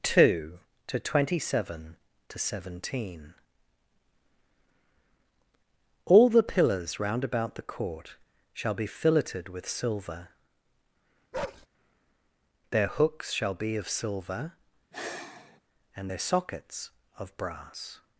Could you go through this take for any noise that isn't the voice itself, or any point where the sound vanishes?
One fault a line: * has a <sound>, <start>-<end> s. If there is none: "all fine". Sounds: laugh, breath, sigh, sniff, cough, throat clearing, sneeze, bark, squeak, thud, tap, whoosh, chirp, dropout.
* has a bark, 11.3-11.7 s
* has a sigh, 14.9-15.6 s